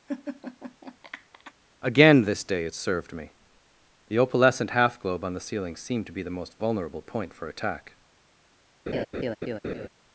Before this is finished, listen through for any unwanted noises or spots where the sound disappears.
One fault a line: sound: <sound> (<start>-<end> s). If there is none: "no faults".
sound: laugh (0.1-1.5 s)
sound: laugh (8.9-9.9 s)